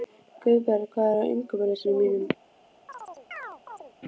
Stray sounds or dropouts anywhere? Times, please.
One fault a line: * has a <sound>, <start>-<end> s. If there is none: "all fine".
* has a chirp, 2.9-3.9 s